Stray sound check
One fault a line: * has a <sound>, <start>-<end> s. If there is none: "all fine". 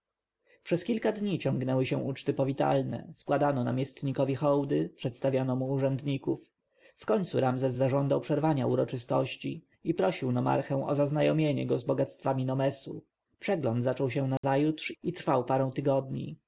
* has a dropout, 14.4-14.4 s